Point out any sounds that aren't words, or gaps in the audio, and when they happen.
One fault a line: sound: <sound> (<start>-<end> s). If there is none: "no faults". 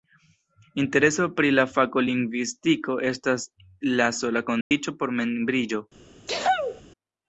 sound: dropout (4.6-4.7 s)
sound: sneeze (6.3-6.8 s)